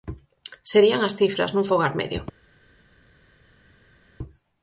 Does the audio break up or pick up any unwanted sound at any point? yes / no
no